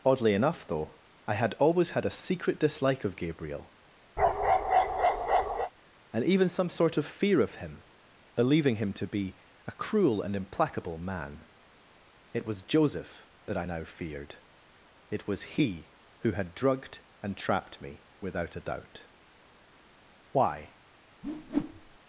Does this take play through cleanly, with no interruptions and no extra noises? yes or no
no